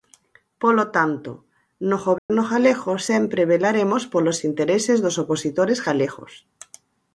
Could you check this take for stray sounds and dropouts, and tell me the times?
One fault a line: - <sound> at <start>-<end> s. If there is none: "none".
- dropout at 2.2-2.3 s